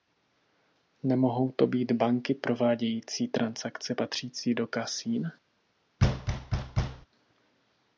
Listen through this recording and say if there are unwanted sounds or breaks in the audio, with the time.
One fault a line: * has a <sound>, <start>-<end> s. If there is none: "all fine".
* has a thud, 6.0-7.1 s